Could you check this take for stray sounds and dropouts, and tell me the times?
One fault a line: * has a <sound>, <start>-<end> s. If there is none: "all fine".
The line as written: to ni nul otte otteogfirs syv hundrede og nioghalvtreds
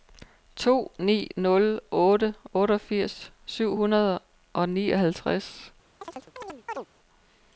* has a chirp, 6.0-6.9 s